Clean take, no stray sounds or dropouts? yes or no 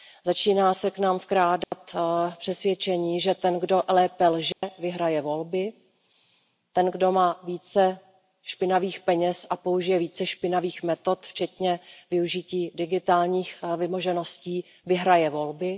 no